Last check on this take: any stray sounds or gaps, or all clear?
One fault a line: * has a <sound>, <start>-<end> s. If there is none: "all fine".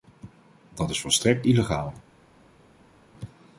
all fine